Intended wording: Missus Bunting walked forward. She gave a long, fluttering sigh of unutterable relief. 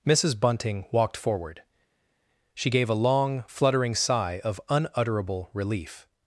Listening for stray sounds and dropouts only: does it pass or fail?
pass